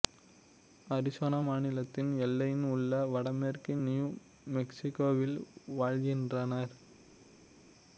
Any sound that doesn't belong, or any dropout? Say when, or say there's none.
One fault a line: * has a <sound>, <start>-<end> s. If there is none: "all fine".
all fine